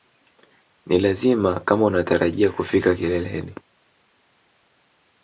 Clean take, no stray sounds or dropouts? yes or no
yes